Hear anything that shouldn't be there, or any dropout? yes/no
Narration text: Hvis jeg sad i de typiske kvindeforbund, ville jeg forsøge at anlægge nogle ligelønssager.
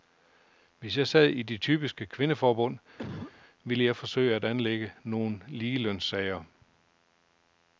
yes